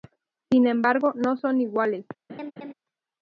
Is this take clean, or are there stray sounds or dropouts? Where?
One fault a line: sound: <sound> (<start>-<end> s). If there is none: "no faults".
sound: laugh (2.3-2.7 s)